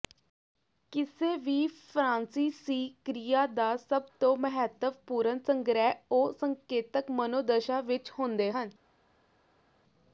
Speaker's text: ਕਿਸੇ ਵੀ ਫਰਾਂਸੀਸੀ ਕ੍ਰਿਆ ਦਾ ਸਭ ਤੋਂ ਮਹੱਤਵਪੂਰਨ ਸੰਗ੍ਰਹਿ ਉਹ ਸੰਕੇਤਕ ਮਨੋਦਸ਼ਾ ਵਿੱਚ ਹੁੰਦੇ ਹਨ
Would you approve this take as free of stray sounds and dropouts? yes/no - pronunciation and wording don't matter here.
yes